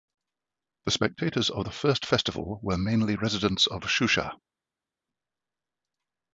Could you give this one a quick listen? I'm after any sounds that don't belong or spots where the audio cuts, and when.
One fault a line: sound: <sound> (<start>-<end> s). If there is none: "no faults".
no faults